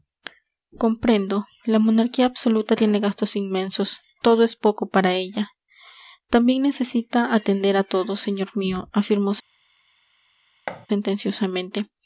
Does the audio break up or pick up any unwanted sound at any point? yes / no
yes